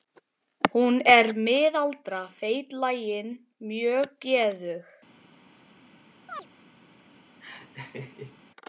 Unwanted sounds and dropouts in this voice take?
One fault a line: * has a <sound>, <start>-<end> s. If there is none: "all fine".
* has a chirp, 6.3-6.5 s
* has a laugh, 7.4-8.4 s